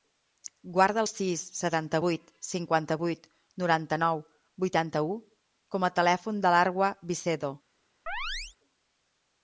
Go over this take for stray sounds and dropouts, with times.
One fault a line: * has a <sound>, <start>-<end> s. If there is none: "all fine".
* has a chirp, 8.1-8.6 s